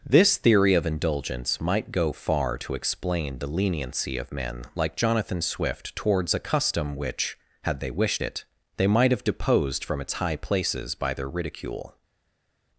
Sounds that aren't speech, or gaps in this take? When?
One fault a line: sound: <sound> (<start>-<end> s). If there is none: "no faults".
no faults